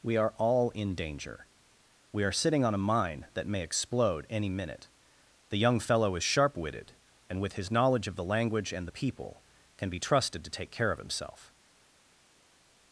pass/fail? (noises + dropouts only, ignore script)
pass